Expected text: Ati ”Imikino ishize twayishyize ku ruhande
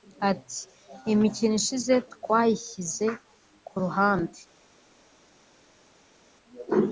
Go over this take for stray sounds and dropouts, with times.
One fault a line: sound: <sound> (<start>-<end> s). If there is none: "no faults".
no faults